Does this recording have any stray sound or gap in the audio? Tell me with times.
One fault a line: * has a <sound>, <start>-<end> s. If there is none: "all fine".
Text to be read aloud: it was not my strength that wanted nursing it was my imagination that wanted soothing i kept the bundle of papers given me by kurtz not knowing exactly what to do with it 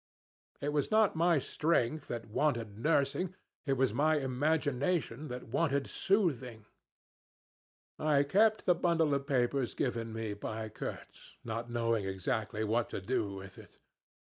all fine